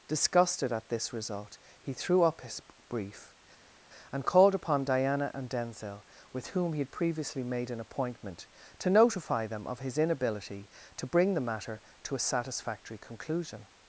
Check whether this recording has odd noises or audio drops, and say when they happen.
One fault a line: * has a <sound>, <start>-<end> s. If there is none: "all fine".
all fine